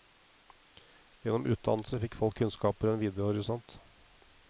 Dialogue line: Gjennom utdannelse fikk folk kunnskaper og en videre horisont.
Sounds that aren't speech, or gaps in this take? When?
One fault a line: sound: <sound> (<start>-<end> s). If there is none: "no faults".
no faults